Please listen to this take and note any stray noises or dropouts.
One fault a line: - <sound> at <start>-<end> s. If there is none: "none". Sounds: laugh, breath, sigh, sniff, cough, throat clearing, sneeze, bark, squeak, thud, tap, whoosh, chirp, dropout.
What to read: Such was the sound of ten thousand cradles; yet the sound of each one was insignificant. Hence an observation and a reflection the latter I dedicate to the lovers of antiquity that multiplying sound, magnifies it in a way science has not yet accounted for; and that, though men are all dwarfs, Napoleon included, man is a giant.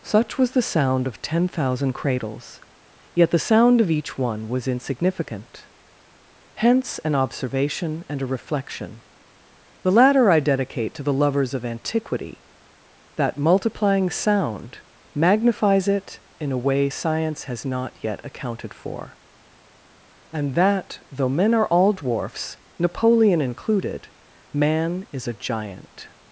none